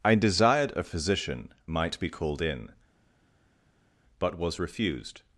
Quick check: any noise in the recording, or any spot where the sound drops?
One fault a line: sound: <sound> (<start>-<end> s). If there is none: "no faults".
no faults